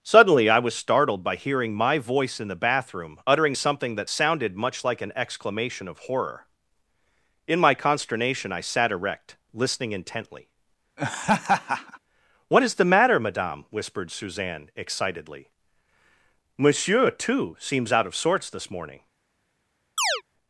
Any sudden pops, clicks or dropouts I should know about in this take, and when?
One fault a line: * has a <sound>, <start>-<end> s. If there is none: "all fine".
* has a laugh, 11.0-12.0 s
* has a chirp, 20.0-20.2 s